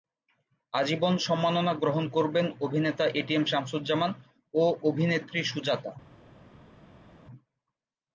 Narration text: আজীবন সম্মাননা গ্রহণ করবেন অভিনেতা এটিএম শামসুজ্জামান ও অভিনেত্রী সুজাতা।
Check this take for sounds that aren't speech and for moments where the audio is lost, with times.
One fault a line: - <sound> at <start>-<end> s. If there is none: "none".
none